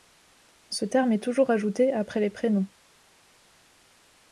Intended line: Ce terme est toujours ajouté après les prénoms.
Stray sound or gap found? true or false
false